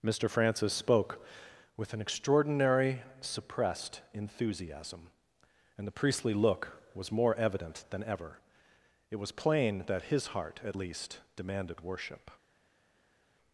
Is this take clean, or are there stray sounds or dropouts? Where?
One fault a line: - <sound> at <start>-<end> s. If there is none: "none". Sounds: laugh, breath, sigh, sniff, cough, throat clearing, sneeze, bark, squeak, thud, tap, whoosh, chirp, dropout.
none